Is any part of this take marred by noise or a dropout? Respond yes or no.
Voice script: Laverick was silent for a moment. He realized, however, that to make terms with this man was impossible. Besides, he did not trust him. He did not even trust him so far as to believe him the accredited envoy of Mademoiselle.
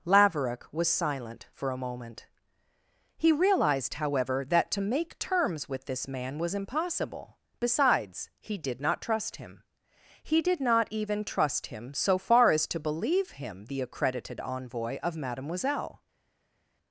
no